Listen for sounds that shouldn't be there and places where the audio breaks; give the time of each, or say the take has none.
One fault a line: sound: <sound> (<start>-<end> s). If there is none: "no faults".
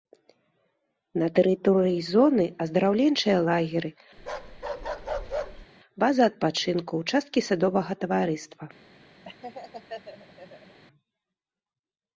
sound: bark (4.2-5.7 s)
sound: laugh (9.2-10.8 s)